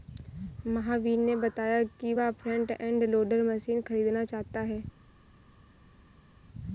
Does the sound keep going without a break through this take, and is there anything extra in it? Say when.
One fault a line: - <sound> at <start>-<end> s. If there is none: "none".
none